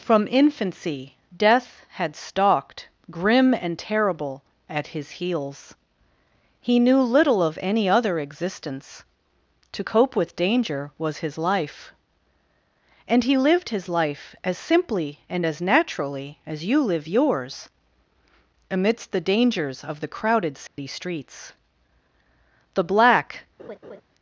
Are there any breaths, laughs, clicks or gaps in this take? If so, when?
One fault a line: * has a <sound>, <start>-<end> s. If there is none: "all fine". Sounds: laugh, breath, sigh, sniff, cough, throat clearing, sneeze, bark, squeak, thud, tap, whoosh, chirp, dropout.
* has a dropout, 20.7-20.8 s
* has a laugh, 23.6-24.0 s